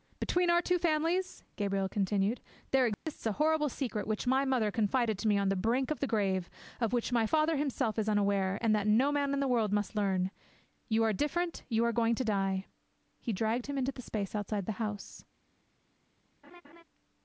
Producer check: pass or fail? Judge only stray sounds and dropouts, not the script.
fail